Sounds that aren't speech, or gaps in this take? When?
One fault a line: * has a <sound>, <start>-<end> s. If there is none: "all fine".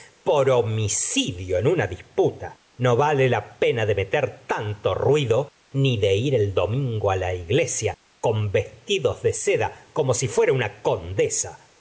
all fine